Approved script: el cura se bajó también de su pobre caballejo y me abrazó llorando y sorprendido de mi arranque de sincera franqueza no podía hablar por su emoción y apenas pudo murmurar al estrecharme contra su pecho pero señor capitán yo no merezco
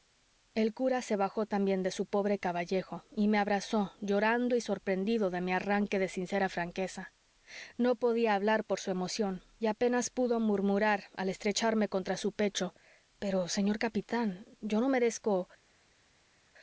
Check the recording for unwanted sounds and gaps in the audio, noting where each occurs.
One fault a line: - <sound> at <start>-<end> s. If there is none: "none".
none